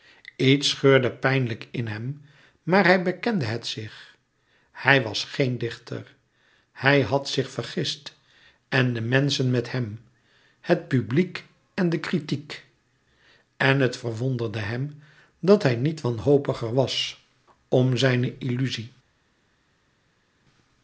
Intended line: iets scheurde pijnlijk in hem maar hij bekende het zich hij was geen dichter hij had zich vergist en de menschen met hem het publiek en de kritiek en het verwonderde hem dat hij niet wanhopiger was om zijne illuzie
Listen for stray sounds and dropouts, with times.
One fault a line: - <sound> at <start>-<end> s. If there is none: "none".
none